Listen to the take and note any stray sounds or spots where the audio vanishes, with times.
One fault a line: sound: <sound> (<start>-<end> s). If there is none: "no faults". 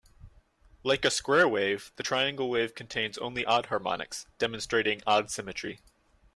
no faults